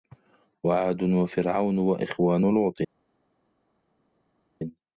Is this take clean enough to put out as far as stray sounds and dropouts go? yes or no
yes